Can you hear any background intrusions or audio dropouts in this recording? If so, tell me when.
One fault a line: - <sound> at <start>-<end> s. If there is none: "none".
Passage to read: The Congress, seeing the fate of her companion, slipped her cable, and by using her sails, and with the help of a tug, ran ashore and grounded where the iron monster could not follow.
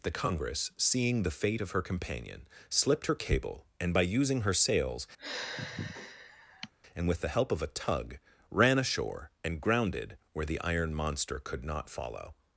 - sigh at 5.2-6.7 s